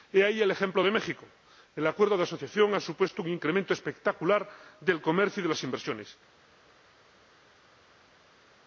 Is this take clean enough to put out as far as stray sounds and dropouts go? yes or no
yes